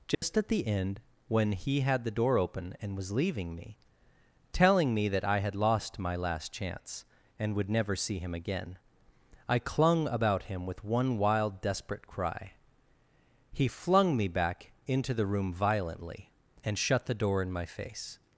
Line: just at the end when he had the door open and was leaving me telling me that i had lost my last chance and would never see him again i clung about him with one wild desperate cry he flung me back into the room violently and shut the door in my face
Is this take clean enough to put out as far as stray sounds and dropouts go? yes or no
no